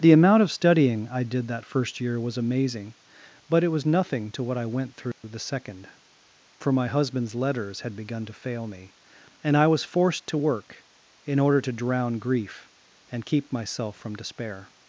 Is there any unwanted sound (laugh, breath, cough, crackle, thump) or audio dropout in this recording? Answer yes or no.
yes